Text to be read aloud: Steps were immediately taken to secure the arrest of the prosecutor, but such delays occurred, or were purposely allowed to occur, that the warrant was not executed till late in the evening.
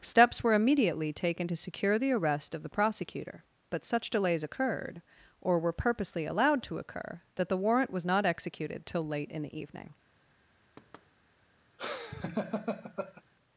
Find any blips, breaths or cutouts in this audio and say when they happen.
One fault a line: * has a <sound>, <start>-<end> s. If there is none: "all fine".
* has a thud, 10.8-11.1 s
* has a laugh, 11.8-13.2 s